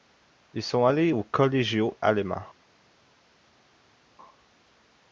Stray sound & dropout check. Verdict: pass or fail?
pass